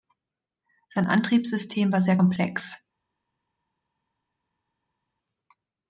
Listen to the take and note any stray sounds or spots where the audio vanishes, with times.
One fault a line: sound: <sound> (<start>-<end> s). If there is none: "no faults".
no faults